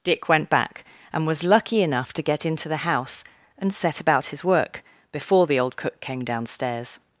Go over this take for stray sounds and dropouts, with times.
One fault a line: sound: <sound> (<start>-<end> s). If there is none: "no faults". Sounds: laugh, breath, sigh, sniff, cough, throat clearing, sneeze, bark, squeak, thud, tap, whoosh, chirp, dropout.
no faults